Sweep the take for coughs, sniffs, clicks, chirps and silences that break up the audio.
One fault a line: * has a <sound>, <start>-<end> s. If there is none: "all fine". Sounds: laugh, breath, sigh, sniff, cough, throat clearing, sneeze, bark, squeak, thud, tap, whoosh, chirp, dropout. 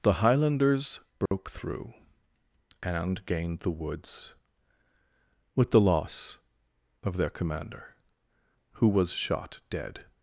* has a dropout, 1.3-1.3 s